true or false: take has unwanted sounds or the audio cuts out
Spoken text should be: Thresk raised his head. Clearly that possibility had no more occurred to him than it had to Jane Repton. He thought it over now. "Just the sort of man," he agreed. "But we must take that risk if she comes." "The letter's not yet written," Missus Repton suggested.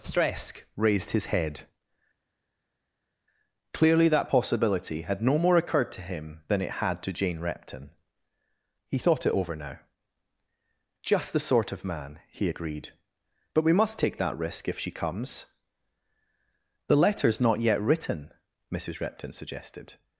false